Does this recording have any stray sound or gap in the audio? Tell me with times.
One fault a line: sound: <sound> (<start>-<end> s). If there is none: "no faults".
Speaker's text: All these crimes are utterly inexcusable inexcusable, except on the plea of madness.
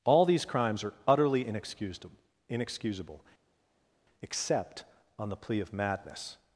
no faults